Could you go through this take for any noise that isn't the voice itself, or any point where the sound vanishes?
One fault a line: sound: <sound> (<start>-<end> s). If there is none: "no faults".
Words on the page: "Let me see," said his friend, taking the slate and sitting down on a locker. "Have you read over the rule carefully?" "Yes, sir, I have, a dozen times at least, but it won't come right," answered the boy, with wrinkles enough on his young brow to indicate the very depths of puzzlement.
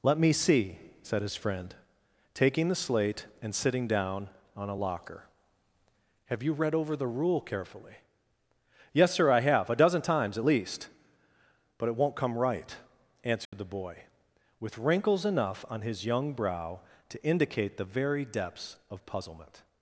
sound: dropout (13.4-13.5 s)